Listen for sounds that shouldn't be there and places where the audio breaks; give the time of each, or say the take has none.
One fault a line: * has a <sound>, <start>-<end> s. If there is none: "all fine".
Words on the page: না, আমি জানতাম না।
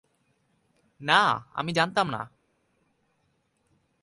all fine